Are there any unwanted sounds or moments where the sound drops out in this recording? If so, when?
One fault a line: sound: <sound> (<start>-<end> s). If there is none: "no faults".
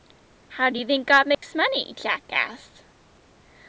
sound: dropout (1.3-1.4 s)